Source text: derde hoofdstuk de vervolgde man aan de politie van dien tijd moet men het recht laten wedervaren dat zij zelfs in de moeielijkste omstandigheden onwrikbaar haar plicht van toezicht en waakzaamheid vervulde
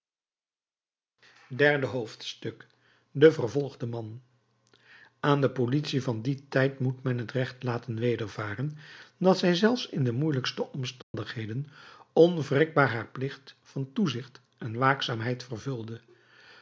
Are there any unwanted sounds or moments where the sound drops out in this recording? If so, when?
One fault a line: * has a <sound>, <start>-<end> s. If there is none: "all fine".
* has a dropout, 11.0-11.1 s